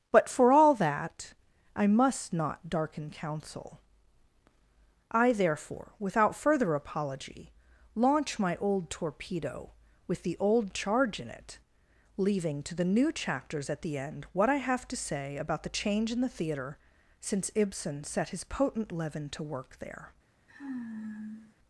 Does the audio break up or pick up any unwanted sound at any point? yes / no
yes